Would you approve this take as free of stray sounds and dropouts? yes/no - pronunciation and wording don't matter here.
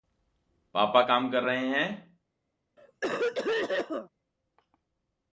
no